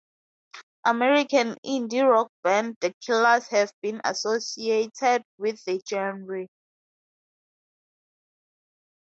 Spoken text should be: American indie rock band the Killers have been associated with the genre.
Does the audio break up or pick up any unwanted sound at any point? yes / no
no